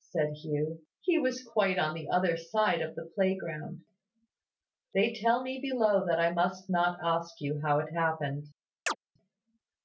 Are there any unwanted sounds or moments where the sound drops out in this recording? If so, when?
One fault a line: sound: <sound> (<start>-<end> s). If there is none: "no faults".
sound: chirp (8.9-9.0 s)